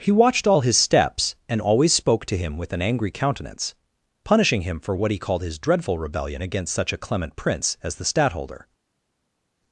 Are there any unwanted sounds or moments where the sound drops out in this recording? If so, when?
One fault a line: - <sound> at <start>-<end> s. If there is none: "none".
none